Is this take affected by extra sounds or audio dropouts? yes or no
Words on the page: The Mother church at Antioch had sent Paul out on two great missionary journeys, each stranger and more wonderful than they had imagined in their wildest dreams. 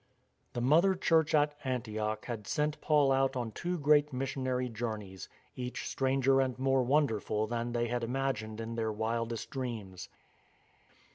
no